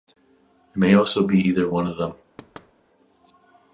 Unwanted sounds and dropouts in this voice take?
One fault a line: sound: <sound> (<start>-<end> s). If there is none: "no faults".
sound: thud (2.4-2.7 s)